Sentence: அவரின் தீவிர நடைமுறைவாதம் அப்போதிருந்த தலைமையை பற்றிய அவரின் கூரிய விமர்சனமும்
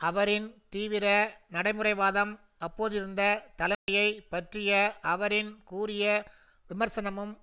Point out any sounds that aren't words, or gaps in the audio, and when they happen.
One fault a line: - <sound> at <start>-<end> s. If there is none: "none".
- dropout at 3.7-3.9 s